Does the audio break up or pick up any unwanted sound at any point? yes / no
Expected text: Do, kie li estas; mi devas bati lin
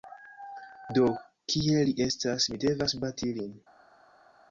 no